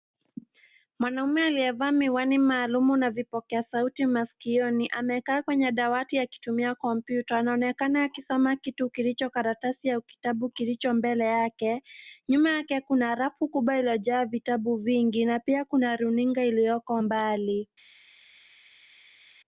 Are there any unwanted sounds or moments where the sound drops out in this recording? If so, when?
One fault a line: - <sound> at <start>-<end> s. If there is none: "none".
none